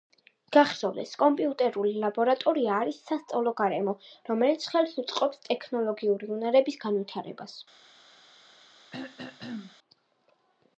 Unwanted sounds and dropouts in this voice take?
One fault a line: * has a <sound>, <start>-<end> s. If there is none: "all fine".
* has a throat clearing, 8.9-9.8 s